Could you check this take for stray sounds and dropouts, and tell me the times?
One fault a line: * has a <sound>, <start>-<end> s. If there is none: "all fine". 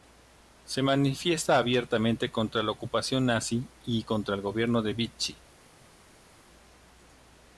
all fine